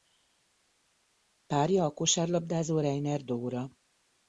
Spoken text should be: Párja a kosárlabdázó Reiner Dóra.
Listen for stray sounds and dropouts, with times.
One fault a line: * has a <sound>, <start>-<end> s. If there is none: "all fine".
all fine